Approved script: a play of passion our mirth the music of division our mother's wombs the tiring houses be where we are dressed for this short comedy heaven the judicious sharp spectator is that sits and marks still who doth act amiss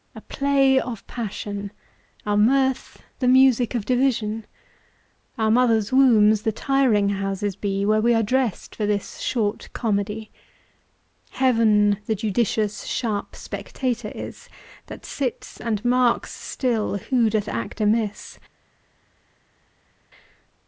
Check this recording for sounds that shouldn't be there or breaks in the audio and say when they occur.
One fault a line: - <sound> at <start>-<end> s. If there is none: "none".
none